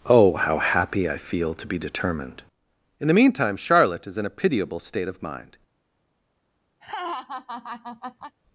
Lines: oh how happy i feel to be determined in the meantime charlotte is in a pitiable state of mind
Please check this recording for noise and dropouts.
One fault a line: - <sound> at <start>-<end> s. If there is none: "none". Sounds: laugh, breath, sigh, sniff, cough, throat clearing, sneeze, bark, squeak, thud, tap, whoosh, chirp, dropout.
- laugh at 6.8-8.4 s